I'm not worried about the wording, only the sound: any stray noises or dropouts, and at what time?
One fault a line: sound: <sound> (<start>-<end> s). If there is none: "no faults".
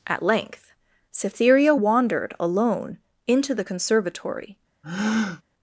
sound: breath (4.8-5.4 s)